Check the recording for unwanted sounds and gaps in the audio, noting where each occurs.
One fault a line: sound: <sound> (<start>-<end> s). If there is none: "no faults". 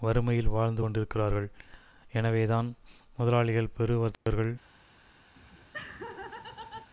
sound: dropout (4.1-4.3 s)
sound: laugh (5.4-6.9 s)